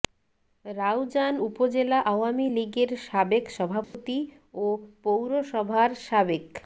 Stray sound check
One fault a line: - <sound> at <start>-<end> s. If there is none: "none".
- dropout at 3.8-3.9 s